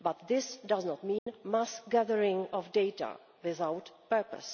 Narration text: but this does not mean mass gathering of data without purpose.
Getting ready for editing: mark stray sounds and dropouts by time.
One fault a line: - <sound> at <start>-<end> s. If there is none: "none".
- dropout at 1.2-1.3 s